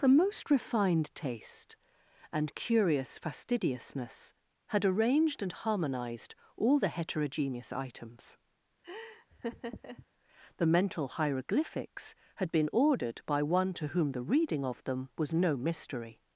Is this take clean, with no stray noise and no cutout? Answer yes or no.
no